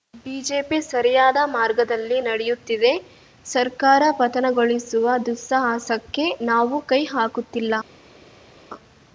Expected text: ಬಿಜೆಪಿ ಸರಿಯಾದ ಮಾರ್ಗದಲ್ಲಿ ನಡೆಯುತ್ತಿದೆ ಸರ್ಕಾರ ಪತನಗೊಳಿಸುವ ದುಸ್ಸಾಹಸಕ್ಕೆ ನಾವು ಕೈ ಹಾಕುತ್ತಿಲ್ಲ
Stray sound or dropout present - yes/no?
no